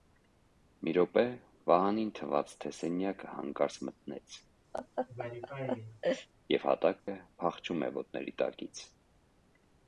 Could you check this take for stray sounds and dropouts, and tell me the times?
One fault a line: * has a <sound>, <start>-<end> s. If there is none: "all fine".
* has a laugh, 4.7-6.3 s
* has a dropout, 7.0-7.1 s